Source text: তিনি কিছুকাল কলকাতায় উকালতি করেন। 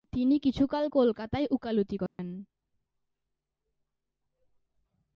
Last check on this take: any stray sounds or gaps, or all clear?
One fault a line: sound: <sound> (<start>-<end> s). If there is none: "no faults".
sound: dropout (2.1-2.2 s)